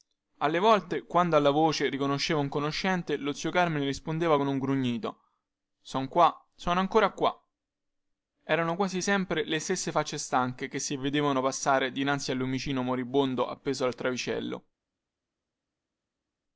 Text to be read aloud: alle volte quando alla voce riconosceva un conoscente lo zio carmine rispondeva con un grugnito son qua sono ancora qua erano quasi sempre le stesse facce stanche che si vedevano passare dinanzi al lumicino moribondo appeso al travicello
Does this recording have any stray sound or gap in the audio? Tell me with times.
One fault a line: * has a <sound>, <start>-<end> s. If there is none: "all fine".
all fine